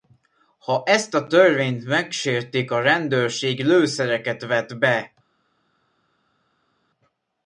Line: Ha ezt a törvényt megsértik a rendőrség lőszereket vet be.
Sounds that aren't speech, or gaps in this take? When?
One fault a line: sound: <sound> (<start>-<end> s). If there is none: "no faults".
no faults